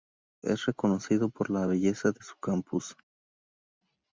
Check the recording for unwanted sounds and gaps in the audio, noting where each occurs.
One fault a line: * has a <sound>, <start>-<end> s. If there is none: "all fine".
all fine